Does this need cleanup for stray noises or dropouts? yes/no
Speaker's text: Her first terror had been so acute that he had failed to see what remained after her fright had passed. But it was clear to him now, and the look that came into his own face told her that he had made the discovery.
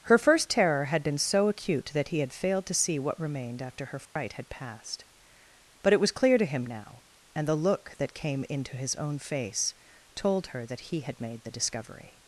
yes